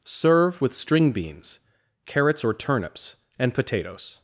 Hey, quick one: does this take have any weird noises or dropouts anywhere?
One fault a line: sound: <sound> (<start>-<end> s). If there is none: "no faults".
no faults